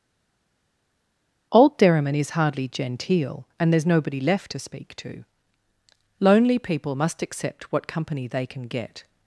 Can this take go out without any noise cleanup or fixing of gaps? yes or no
yes